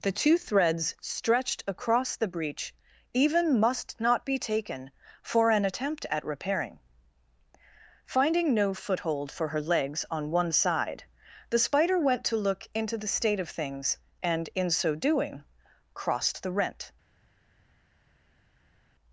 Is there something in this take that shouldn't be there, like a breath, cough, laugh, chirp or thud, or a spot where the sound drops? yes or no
no